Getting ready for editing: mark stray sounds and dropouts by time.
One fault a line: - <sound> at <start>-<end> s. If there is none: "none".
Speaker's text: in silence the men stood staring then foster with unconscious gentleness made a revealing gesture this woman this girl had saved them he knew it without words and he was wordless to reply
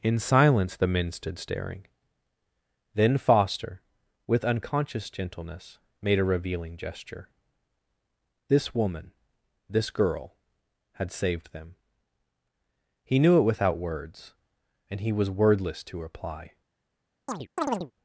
- chirp at 17.3-17.9 s